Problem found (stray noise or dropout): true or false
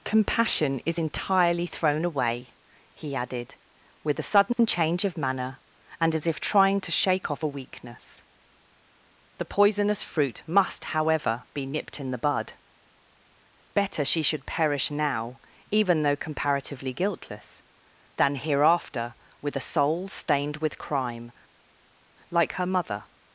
false